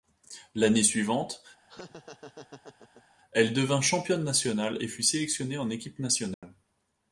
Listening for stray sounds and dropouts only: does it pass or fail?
fail